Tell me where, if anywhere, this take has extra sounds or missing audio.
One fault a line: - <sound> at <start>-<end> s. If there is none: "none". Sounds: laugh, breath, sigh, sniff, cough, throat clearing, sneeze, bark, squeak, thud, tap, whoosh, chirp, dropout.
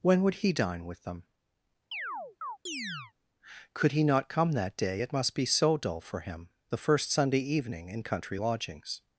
- chirp at 1.9-3.1 s